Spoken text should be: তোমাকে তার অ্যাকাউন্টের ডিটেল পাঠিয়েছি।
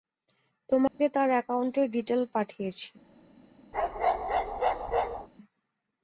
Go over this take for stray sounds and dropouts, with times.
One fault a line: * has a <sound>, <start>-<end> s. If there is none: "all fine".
* has a dropout, 0.9-1.0 s
* has a bark, 3.7-5.3 s